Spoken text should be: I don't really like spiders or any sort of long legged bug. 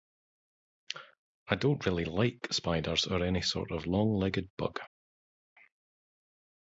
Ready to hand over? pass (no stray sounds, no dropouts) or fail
pass